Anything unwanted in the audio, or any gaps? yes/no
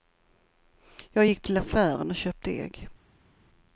no